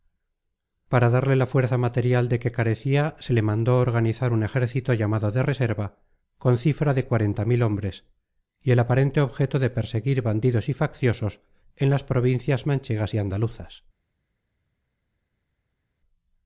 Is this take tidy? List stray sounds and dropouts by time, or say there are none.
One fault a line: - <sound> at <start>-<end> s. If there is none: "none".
none